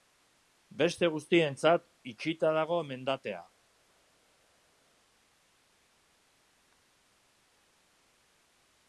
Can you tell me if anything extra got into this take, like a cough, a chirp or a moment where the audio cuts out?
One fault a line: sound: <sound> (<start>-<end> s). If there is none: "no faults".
no faults